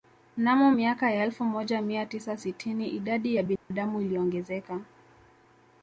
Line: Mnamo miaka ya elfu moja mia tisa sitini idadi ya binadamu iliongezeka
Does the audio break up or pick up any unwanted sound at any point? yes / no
yes